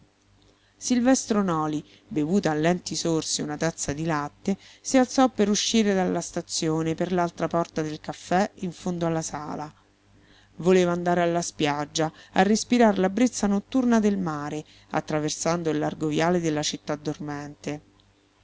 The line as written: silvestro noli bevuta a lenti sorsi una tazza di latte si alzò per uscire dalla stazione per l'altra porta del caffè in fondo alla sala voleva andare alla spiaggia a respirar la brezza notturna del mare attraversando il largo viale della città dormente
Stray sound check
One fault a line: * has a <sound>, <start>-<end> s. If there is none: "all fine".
all fine